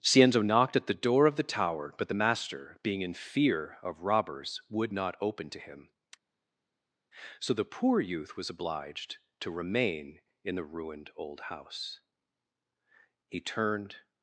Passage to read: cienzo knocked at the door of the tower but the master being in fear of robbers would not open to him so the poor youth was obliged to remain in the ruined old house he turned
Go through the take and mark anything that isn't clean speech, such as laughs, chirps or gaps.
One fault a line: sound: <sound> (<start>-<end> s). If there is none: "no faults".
no faults